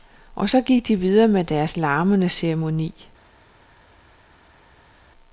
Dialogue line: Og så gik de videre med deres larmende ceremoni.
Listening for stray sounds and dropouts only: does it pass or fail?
pass